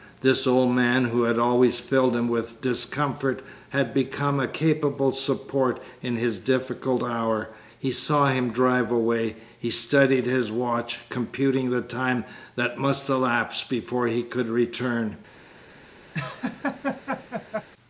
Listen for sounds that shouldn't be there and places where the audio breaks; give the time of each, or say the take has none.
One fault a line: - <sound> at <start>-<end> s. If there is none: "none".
- laugh at 16.1-17.7 s